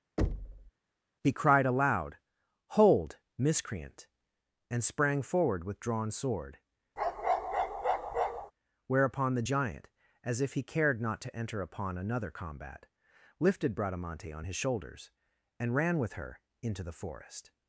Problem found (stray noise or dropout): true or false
true